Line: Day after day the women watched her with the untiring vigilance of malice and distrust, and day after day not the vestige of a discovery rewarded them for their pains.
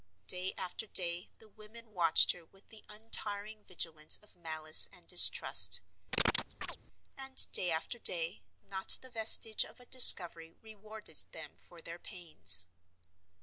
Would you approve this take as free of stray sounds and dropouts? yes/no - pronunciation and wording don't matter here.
no